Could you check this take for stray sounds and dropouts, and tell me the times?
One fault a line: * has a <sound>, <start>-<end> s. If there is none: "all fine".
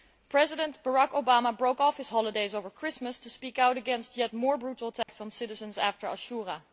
* has a dropout, 5.0-5.1 s